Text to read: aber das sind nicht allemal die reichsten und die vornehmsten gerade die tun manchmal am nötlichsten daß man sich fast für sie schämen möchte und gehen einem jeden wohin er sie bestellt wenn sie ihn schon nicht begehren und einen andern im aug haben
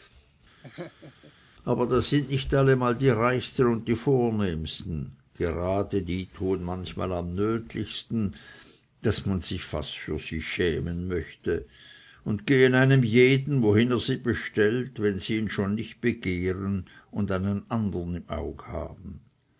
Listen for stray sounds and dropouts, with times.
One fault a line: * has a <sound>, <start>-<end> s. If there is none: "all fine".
* has a laugh, 0.6-1.3 s